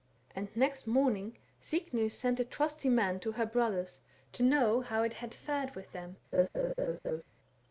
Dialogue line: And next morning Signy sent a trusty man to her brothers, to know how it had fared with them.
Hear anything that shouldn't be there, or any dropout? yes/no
yes